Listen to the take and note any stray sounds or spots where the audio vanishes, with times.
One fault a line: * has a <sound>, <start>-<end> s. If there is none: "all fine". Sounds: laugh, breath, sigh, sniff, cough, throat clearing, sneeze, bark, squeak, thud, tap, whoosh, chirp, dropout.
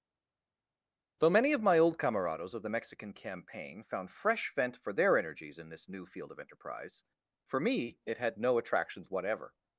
all fine